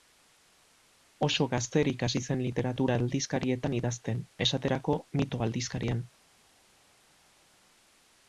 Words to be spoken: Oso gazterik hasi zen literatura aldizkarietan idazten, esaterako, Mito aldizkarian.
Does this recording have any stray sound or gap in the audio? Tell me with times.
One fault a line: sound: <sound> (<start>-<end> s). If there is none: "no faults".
no faults